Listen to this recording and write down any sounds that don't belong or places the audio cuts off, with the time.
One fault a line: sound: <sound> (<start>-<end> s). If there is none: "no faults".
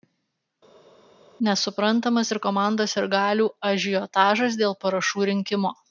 no faults